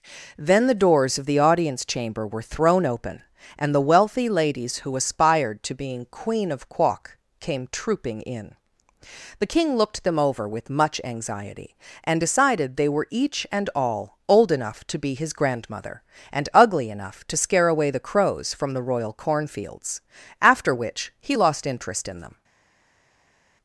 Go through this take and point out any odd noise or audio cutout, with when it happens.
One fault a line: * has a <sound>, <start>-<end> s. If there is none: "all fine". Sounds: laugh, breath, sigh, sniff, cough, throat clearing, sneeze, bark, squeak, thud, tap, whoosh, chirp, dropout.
all fine